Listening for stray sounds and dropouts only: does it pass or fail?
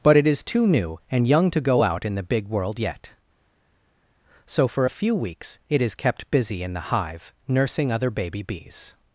pass